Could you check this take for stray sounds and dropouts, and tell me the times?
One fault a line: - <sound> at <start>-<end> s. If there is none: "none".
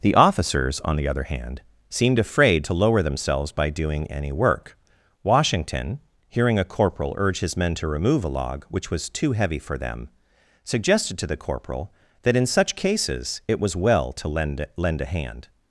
none